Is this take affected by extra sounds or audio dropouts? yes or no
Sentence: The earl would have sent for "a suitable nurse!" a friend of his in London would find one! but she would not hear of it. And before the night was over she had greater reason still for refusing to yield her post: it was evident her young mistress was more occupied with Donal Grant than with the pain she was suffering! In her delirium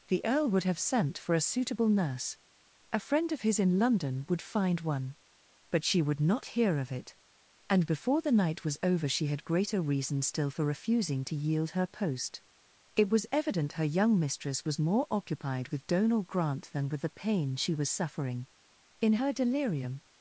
no